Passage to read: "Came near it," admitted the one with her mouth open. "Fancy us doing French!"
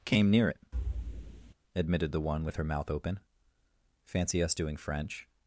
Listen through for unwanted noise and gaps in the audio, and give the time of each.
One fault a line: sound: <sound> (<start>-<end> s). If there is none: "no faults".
sound: thud (0.7-1.5 s)